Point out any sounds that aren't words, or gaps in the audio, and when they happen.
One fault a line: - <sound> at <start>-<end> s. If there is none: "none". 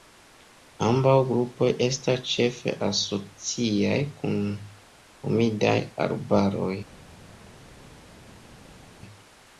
none